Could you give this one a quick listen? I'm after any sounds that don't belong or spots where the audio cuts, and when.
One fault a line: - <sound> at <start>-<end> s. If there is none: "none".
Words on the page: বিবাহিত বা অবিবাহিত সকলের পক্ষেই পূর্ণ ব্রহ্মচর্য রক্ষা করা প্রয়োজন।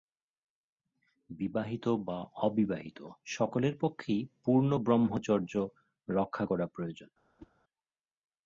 - whoosh at 7.4-7.5 s